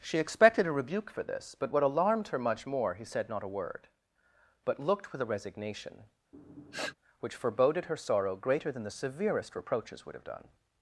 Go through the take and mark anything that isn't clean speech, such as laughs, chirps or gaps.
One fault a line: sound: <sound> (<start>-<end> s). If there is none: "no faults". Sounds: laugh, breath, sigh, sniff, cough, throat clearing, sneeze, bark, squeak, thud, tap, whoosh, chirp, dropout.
sound: sniff (6.3-6.9 s)